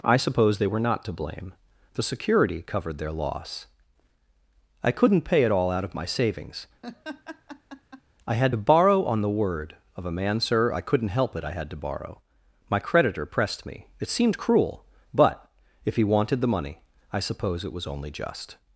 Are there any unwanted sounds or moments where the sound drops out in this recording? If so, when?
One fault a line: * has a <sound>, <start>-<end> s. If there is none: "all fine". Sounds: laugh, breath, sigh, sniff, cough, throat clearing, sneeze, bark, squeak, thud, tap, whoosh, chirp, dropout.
* has a laugh, 6.8-8.0 s